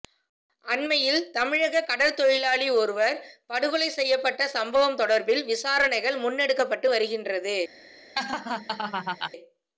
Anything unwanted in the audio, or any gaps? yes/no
yes